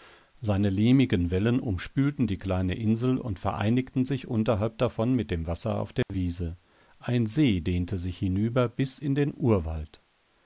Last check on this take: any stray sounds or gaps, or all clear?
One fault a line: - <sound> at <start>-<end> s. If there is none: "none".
- dropout at 6.0-6.1 s